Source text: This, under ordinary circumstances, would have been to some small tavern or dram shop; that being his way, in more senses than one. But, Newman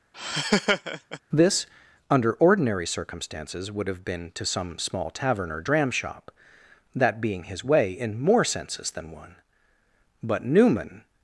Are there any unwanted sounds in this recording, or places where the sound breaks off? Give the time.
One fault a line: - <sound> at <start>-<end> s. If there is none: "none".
- laugh at 0.1-1.2 s